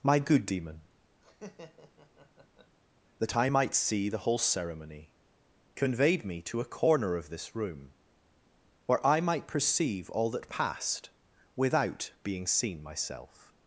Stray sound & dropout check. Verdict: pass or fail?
fail